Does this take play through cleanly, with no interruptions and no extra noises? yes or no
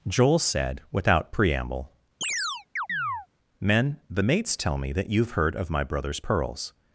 no